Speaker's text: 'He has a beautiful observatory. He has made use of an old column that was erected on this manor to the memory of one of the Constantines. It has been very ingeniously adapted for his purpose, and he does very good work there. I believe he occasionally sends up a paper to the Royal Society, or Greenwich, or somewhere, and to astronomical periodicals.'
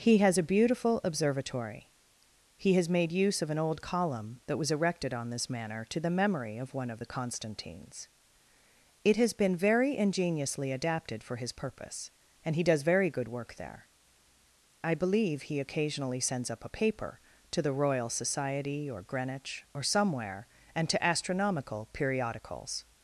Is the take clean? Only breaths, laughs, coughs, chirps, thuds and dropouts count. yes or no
yes